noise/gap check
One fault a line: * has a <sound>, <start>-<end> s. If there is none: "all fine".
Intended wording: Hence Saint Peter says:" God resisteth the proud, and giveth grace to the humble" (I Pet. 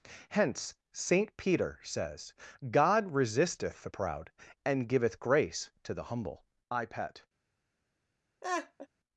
* has a laugh, 8.4-8.9 s